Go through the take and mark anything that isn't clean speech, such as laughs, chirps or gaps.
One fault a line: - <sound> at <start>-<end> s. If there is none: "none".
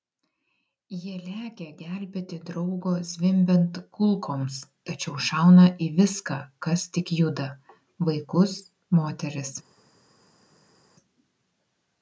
none